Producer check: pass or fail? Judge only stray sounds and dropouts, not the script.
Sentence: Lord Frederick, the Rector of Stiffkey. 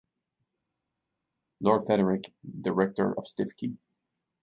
pass